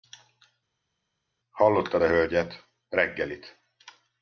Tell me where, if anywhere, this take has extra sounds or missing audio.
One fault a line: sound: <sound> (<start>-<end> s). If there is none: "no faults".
no faults